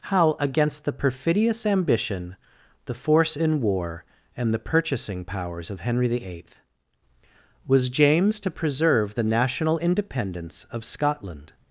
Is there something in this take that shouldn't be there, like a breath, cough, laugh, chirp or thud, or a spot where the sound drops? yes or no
no